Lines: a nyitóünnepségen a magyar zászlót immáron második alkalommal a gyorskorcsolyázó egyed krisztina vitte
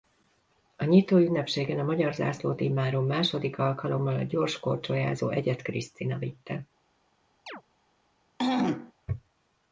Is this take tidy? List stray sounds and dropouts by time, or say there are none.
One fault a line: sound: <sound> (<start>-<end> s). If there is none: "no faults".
sound: chirp (7.5-7.6 s)
sound: throat clearing (8.4-8.9 s)